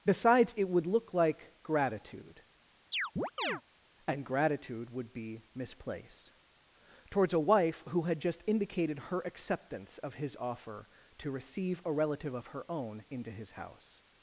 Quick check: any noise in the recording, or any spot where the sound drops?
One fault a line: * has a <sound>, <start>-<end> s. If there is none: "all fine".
* has a chirp, 2.9-3.6 s